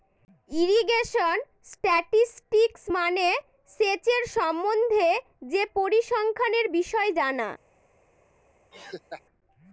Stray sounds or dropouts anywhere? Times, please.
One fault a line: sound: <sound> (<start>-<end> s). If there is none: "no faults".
sound: laugh (8.7-9.2 s)